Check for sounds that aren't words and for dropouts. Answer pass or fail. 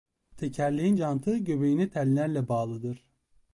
pass